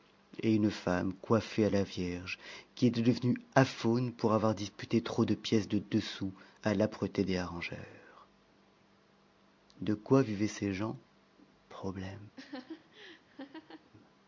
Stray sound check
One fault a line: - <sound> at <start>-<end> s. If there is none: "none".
- laugh at 12.4-13.9 s